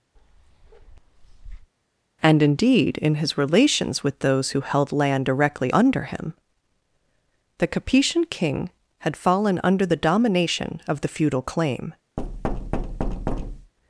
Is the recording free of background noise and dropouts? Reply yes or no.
no